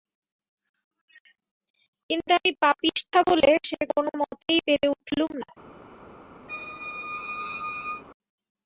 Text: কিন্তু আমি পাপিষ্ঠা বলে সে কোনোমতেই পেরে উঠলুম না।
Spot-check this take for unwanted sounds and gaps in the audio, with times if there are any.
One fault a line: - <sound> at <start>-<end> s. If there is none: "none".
- squeak at 6.5-8.0 s